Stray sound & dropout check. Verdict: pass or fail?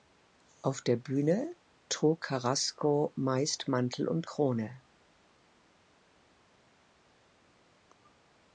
pass